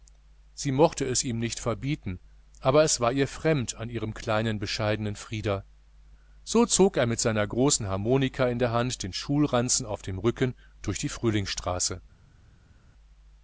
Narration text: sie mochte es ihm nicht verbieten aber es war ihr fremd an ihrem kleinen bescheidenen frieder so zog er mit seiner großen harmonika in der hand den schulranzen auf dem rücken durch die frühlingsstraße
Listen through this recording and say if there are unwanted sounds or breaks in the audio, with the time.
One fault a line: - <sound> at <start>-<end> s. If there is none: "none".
none